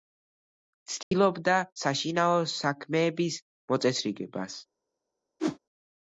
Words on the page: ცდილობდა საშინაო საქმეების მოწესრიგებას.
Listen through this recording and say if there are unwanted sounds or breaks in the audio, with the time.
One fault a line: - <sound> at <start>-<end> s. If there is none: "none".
- dropout at 1.0-1.1 s
- whoosh at 5.4-5.6 s